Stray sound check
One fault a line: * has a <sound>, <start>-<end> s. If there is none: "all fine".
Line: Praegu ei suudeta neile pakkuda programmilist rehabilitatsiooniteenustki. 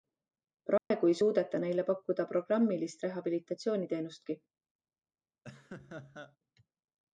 * has a dropout, 0.8-0.9 s
* has a laugh, 5.4-6.4 s